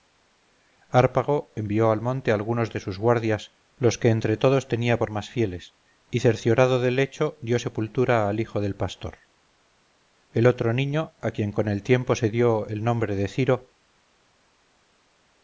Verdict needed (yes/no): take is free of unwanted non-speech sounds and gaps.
yes